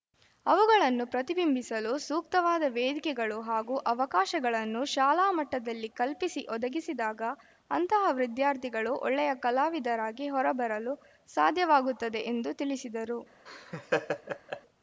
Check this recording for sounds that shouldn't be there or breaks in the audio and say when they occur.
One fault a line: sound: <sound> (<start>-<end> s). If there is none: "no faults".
sound: laugh (13.5-14.6 s)